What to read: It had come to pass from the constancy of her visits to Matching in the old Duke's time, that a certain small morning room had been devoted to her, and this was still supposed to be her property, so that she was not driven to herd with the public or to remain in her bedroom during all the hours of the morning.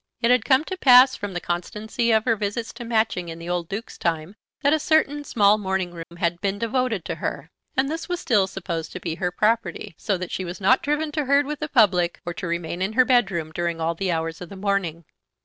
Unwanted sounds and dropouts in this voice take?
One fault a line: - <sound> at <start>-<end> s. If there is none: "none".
- dropout at 6.0-6.1 s